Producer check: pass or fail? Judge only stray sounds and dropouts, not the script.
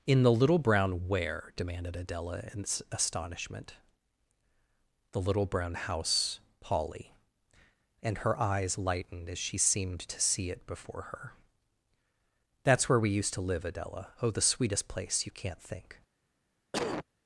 fail